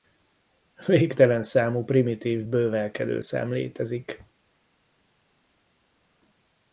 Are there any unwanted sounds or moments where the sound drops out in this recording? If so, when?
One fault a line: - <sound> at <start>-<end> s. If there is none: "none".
none